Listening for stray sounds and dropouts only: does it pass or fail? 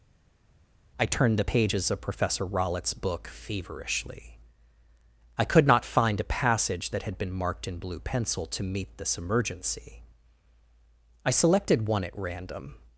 pass